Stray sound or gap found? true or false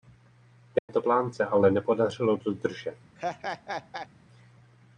true